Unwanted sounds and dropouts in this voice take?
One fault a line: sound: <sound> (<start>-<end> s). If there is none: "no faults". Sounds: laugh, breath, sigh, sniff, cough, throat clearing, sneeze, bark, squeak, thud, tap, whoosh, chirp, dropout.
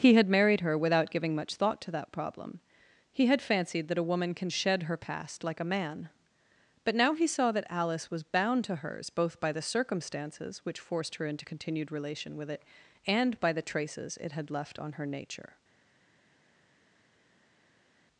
no faults